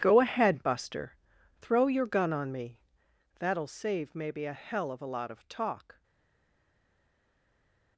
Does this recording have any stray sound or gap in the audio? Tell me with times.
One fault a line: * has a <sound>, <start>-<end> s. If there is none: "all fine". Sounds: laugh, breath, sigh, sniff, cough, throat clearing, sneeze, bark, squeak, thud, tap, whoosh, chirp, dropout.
all fine